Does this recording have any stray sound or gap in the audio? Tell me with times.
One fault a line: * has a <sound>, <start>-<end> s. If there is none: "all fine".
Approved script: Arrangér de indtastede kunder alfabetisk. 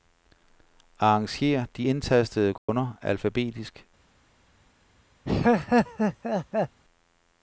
* has a dropout, 2.6-2.7 s
* has a laugh, 5.2-6.8 s